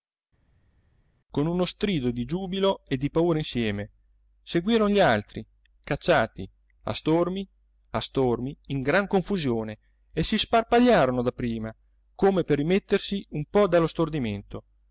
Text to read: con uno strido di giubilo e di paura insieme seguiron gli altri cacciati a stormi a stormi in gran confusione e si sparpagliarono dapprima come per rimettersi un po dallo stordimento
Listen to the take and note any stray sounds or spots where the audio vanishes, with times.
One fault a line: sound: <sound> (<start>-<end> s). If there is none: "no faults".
no faults